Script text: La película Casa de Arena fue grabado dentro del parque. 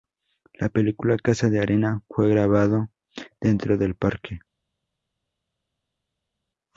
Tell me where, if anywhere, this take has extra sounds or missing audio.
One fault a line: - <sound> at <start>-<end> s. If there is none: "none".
none